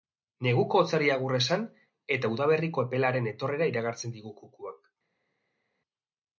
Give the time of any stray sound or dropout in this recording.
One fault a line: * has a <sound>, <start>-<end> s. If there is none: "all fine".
all fine